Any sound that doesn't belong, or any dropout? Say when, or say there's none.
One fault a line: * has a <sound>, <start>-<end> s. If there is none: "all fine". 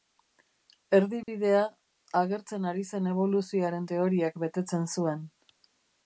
* has a dropout, 1.2-1.3 s